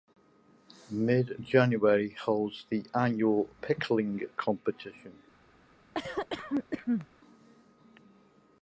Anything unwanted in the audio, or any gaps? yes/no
yes